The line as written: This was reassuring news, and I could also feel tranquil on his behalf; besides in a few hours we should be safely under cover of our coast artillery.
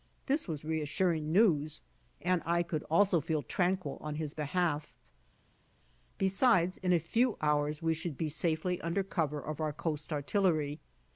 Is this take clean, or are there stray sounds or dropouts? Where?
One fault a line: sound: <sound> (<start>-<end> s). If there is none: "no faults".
no faults